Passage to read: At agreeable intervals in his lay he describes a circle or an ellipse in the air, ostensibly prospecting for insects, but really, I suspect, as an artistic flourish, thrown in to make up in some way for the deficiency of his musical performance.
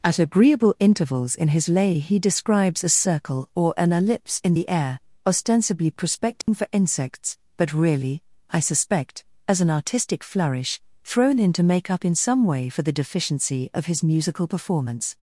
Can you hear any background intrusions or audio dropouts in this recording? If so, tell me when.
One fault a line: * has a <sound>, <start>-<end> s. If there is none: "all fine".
* has a dropout, 6.4-6.5 s